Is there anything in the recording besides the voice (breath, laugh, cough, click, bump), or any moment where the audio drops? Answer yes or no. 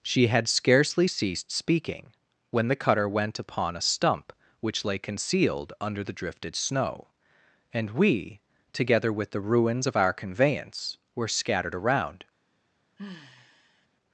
yes